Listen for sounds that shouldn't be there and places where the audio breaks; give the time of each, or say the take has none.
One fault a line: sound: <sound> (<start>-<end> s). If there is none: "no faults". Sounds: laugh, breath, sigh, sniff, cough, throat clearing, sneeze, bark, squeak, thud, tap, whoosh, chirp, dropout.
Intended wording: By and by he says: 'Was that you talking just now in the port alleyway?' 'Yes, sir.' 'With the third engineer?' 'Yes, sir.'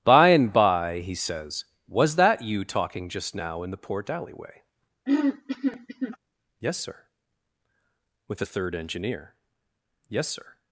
sound: throat clearing (5.1-6.2 s)